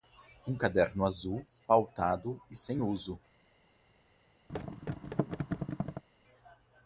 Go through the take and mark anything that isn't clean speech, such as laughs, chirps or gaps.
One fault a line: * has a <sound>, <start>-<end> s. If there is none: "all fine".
* has a thud, 4.5-6.0 s